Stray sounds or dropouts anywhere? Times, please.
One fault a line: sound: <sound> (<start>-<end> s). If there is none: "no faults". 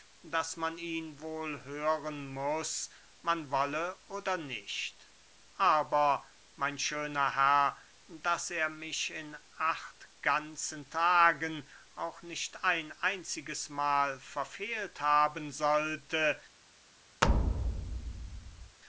sound: thud (17.2-18.8 s)